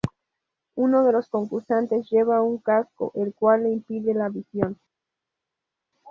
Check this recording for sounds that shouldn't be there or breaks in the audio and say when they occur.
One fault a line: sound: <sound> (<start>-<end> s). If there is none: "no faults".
no faults